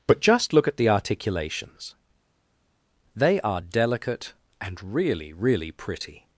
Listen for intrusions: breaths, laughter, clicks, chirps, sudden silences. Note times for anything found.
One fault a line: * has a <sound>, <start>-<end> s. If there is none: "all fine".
all fine